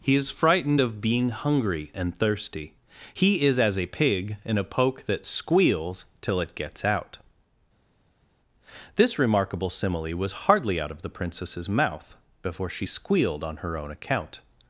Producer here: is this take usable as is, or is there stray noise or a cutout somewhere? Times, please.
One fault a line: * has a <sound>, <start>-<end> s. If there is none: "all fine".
all fine